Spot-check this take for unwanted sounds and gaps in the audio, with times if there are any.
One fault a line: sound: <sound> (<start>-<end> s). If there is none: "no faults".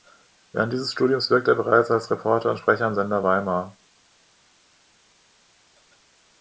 no faults